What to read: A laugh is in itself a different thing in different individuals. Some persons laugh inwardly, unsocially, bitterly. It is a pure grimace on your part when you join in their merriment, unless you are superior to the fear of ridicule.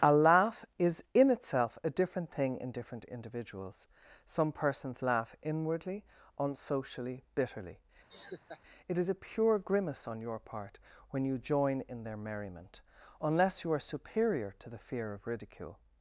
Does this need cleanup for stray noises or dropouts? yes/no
yes